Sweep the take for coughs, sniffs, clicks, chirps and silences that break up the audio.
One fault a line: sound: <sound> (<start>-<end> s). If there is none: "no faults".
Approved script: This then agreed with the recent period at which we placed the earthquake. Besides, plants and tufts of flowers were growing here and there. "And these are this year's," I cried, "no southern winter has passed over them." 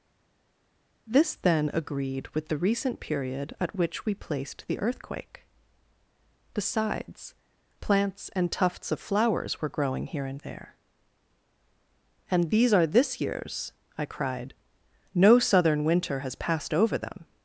no faults